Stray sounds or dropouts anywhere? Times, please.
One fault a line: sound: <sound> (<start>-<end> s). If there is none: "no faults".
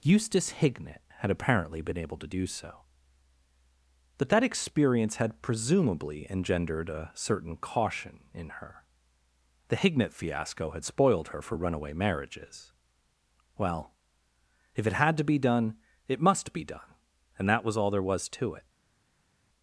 no faults